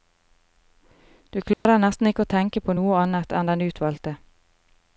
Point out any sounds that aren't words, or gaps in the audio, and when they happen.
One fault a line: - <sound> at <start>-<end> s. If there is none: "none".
- dropout at 1.5-1.7 s